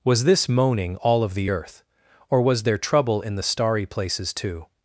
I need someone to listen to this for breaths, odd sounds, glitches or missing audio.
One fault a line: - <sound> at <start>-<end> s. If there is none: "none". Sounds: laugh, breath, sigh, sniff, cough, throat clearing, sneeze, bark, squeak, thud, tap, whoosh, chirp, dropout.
none